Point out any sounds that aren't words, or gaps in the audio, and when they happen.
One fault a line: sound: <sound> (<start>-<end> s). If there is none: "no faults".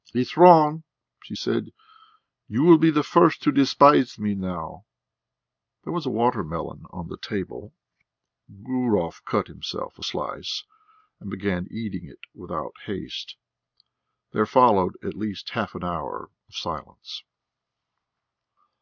no faults